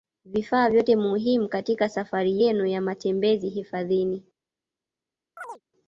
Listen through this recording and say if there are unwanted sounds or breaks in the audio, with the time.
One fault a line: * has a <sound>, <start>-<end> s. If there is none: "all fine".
* has a chirp, 5.4-5.6 s